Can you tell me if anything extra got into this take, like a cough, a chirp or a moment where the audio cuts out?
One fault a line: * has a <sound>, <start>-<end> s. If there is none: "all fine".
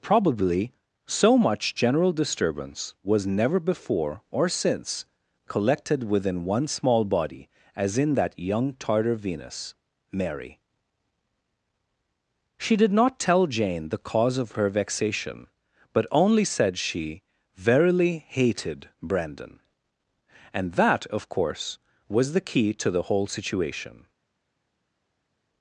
all fine